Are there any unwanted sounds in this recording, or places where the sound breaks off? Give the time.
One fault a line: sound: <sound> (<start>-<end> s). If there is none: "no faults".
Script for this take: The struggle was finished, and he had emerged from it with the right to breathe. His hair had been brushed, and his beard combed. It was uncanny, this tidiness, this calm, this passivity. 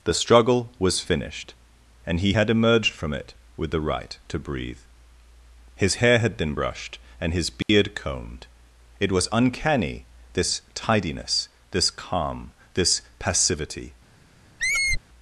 sound: dropout (7.6-7.7 s)
sound: squeak (14.6-15.0 s)